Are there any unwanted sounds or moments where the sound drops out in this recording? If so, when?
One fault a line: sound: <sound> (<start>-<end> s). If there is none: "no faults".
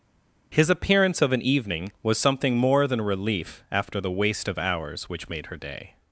no faults